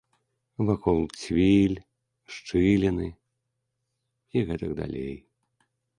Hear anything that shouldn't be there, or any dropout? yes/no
no